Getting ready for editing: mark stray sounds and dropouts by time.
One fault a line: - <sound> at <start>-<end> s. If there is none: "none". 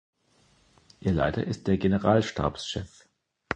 none